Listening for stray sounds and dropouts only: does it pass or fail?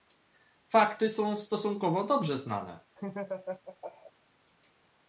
fail